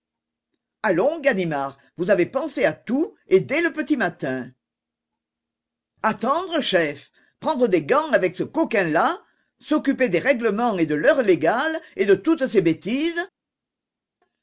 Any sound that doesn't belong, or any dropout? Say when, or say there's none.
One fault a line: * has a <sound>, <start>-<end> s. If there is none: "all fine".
all fine